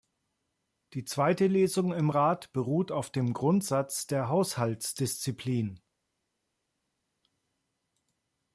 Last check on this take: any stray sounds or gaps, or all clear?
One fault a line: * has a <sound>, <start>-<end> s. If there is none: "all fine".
all fine